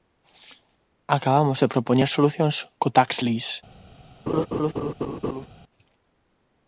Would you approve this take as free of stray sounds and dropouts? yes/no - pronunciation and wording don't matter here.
no